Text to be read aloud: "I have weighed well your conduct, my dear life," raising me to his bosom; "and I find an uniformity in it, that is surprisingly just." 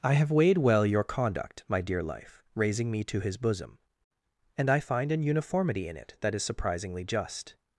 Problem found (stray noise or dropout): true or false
false